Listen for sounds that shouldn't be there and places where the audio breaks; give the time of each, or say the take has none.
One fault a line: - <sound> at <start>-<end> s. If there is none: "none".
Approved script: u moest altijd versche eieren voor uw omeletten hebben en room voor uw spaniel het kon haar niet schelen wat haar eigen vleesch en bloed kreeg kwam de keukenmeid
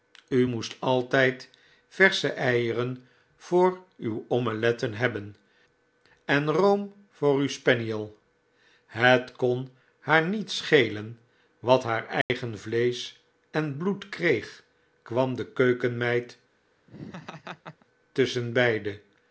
- dropout at 12.2-12.3 s
- laugh at 16.9-17.9 s